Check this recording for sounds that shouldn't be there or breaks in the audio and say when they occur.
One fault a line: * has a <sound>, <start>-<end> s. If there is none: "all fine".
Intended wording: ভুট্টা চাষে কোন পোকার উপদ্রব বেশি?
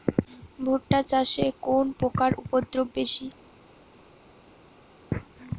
all fine